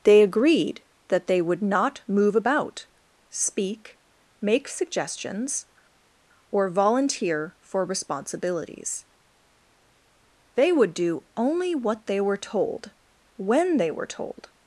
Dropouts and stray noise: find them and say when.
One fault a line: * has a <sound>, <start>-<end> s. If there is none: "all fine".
all fine